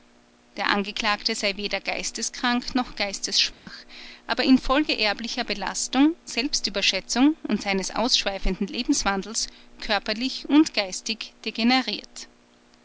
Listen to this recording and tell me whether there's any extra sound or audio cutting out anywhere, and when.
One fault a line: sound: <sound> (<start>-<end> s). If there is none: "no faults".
sound: dropout (3.5-3.7 s)